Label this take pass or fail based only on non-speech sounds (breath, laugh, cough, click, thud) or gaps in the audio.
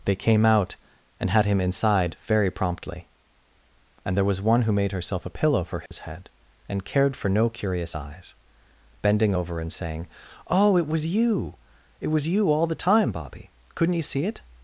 fail